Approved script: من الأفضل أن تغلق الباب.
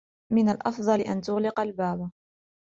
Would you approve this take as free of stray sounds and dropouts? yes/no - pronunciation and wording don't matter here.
yes